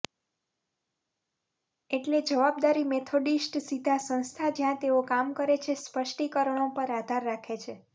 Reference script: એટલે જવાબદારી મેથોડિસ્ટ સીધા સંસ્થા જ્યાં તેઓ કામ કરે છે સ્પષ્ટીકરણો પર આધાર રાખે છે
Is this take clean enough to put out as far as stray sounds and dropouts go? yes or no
yes